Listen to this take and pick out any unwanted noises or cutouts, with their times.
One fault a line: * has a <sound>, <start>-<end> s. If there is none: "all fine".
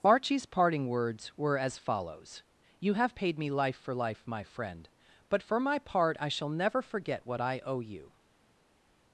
all fine